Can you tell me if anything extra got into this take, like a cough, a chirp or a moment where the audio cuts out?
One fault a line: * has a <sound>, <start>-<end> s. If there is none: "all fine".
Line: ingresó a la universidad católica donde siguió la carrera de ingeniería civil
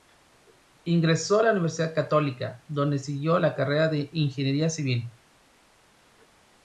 all fine